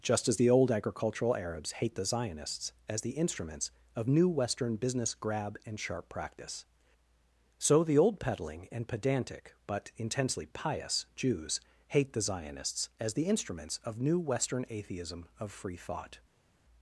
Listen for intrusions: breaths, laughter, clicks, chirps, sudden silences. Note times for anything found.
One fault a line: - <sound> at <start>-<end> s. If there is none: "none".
none